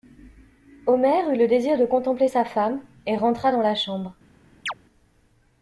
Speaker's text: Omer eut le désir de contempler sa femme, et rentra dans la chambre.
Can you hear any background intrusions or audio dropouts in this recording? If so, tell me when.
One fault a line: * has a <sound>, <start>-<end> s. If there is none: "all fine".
* has a chirp, 4.7-4.7 s